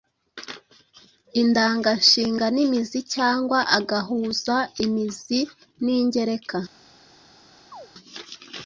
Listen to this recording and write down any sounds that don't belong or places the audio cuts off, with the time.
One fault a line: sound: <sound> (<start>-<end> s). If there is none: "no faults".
sound: chirp (7.7-7.9 s)